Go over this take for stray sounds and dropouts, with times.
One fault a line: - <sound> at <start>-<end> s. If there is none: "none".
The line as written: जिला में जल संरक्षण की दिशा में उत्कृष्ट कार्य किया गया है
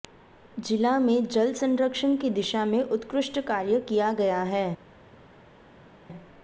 none